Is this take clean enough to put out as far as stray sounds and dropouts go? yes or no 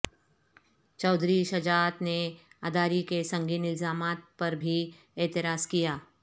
yes